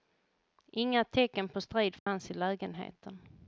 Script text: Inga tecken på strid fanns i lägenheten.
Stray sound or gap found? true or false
true